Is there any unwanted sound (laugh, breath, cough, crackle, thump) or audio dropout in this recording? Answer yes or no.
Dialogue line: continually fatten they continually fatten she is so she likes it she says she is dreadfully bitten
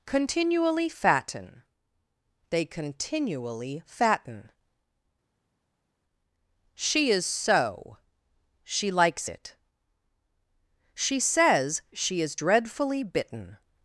no